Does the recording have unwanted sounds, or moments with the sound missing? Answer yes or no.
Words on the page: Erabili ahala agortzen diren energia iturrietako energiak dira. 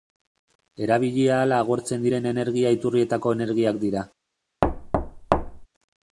yes